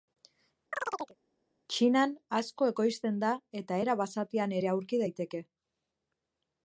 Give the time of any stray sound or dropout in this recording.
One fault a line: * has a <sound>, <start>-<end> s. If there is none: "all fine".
* has a chirp, 0.7-1.2 s